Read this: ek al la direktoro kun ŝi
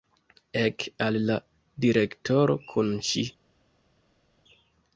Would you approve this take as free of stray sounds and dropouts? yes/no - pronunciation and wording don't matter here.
yes